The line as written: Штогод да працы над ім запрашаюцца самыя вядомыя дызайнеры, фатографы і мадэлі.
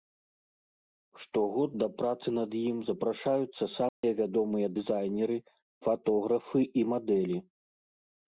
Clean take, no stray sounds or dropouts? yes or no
no